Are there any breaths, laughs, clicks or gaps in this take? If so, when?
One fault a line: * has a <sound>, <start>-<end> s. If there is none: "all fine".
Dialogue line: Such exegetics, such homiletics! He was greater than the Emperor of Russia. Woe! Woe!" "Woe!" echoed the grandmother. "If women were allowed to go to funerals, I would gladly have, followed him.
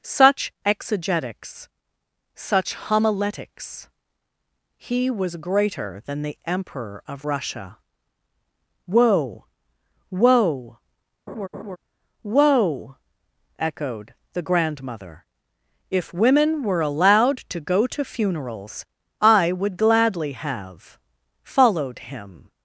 * has a laugh, 11.3-11.8 s